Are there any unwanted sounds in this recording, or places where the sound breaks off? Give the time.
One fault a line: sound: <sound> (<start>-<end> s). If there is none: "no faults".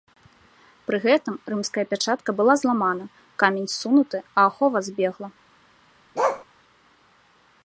sound: bark (6.1-6.4 s)